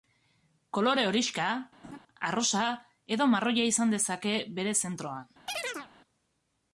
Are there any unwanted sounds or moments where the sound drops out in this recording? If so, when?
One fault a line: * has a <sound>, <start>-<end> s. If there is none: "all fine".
* has a laugh, 1.8-2.0 s
* has a chirp, 5.5-5.9 s